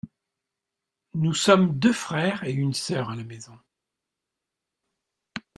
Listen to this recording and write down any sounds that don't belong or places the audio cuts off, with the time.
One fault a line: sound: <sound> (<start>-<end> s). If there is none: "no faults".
no faults